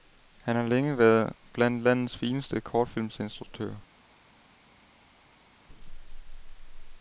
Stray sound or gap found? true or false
false